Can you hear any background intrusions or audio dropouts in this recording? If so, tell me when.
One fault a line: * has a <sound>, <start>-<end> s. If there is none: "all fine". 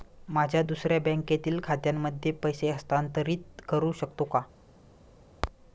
all fine